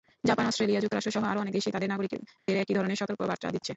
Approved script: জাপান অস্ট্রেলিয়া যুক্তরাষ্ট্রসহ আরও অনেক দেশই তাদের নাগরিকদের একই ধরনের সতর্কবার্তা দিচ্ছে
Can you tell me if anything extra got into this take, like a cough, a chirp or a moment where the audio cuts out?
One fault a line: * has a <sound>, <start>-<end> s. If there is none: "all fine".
* has a dropout, 2.4-2.5 s